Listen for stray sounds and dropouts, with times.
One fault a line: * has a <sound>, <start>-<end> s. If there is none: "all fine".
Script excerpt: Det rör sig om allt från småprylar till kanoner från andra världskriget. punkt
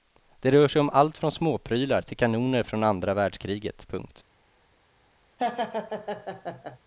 * has a laugh, 5.4-6.8 s